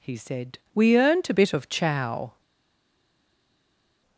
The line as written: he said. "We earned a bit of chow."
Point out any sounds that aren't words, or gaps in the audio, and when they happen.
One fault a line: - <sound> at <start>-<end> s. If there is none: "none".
none